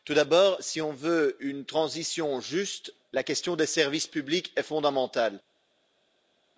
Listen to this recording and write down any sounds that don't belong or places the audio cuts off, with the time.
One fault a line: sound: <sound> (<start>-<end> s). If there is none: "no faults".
no faults